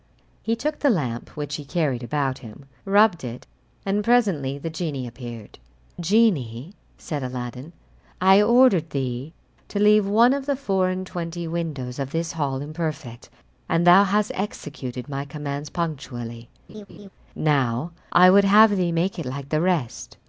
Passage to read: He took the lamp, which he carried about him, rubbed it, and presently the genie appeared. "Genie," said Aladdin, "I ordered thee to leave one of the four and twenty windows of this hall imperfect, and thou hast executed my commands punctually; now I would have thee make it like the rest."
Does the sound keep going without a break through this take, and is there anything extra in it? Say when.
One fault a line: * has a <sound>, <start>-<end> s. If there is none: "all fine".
* has a laugh, 16.7-17.1 s